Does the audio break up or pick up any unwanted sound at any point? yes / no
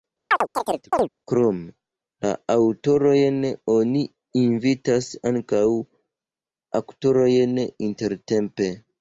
yes